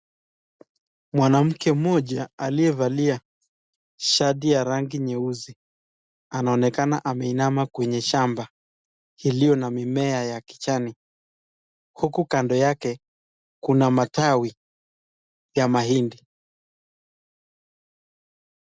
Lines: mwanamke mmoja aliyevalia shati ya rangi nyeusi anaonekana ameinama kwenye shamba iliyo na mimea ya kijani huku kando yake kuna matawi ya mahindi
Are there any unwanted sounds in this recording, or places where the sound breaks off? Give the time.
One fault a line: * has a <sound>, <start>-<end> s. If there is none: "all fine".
all fine